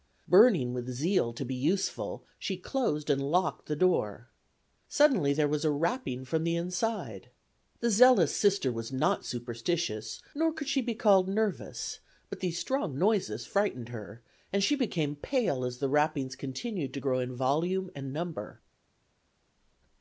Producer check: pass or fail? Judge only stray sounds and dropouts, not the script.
pass